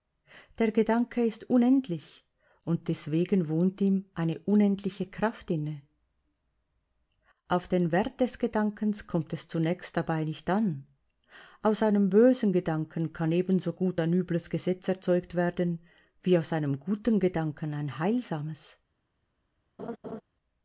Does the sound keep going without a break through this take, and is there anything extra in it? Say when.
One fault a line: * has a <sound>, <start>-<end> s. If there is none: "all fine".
* has a laugh, 19.8-20.2 s